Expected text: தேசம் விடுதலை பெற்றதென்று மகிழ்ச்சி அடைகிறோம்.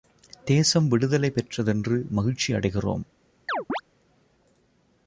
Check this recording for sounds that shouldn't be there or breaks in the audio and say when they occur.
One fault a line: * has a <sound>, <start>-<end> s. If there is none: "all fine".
* has a chirp, 3.5-3.8 s